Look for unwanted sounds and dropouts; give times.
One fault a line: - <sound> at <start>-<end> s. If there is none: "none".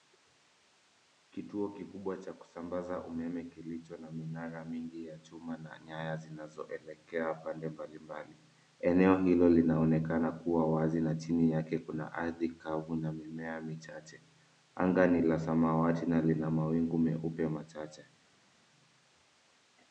none